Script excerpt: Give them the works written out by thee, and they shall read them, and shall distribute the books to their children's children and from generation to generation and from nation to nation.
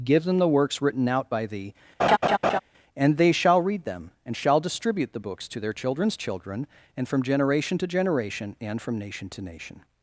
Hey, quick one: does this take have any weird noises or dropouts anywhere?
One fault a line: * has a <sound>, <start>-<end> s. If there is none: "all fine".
* has a laugh, 2.0-2.6 s